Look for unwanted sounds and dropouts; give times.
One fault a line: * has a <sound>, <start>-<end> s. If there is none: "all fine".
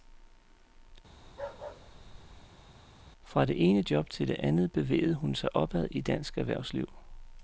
* has a bark, 1.2-2.6 s